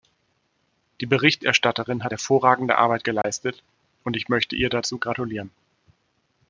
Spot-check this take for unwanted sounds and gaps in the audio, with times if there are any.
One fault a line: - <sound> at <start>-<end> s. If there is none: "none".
- dropout at 3.2-3.2 s